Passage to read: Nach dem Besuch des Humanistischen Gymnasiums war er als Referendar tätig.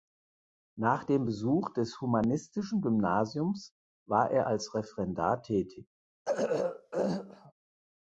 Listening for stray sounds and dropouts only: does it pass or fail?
fail